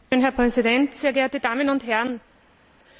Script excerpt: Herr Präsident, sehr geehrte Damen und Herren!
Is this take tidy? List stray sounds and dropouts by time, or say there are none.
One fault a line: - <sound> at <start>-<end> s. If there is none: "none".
none